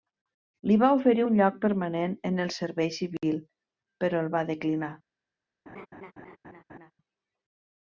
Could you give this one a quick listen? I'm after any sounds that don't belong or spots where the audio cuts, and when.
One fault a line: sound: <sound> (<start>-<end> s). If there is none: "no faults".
sound: laugh (5.7-6.9 s)